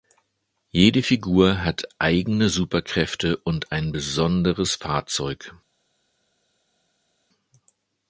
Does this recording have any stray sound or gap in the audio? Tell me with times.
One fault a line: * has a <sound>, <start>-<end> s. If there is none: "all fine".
all fine